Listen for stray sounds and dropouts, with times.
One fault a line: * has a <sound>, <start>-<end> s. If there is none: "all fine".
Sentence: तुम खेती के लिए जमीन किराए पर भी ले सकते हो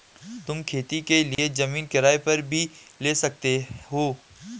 * has a dropout, 1.3-1.4 s